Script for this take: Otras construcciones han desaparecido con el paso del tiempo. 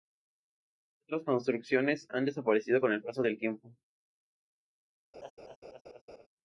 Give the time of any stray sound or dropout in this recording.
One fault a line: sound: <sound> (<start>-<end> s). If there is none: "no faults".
sound: laugh (5.1-6.3 s)